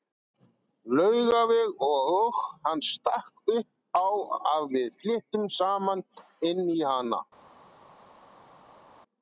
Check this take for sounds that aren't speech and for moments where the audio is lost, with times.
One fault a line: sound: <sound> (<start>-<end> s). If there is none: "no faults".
no faults